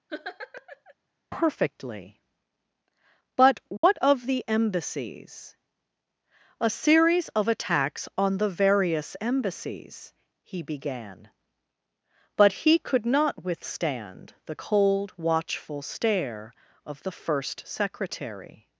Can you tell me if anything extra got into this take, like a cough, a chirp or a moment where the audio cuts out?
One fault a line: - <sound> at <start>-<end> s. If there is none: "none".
- laugh at 0.1-0.9 s
- dropout at 3.8-3.8 s